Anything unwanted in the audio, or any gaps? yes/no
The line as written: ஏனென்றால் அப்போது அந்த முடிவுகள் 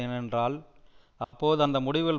yes